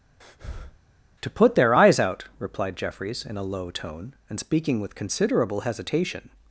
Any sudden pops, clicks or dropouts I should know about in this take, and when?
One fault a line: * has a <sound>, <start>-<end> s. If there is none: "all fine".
* has a breath, 0.2-0.8 s